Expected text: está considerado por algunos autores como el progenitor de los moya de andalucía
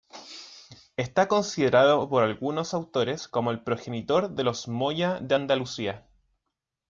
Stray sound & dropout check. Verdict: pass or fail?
pass